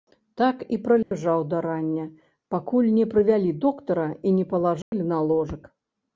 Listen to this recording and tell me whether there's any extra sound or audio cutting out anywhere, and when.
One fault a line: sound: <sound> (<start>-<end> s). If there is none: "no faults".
sound: dropout (1.0-1.1 s)
sound: dropout (4.8-4.9 s)